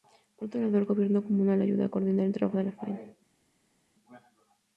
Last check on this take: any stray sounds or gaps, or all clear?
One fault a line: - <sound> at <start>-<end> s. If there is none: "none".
none